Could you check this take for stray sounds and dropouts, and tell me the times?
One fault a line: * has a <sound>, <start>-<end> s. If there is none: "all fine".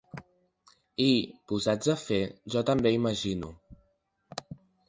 all fine